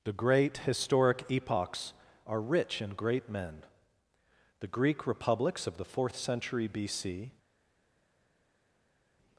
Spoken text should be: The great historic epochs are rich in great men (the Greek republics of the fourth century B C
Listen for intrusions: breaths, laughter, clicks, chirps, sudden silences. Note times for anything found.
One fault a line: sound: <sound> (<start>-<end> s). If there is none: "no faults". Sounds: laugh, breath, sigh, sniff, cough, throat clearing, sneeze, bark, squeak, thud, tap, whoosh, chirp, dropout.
no faults